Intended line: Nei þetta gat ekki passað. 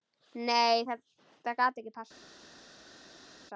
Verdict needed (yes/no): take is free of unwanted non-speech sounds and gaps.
yes